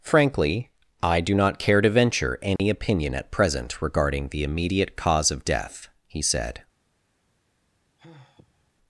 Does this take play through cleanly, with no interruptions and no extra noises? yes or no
no